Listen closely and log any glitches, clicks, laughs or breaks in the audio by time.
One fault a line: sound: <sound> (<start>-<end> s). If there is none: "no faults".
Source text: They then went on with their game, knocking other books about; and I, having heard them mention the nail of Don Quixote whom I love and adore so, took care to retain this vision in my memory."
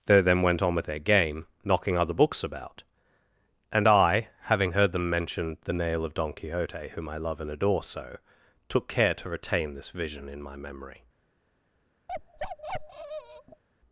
sound: bark (12.1-13.6 s)